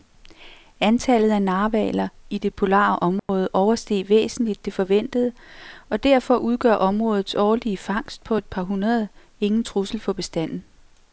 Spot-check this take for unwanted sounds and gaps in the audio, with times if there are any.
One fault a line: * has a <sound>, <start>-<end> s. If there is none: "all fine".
* has a dropout, 3.2-3.3 s